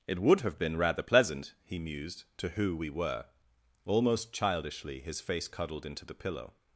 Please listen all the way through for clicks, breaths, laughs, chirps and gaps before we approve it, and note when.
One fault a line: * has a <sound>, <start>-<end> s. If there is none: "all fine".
all fine